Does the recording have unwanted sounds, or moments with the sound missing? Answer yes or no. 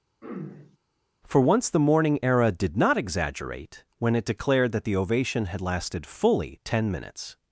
yes